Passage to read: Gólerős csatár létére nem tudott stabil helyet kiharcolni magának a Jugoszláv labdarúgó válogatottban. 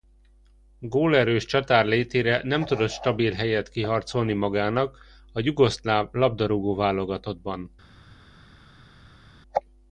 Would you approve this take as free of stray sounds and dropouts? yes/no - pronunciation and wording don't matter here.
yes